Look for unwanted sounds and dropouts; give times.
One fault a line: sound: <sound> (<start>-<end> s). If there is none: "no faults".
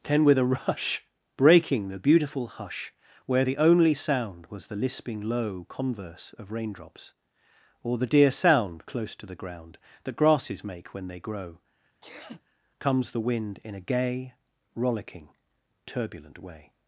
sound: sneeze (12.0-12.4 s)